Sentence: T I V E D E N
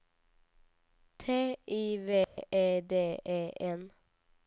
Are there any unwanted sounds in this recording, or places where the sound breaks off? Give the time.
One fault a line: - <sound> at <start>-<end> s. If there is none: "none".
- dropout at 2.2-2.4 s